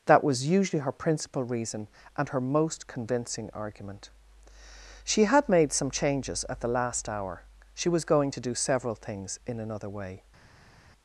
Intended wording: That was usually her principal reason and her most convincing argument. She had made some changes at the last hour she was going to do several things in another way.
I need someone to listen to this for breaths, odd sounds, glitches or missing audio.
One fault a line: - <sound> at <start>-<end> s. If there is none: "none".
none